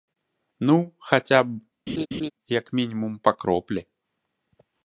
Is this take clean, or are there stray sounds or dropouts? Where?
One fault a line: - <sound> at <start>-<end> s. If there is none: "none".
- laugh at 1.9-2.3 s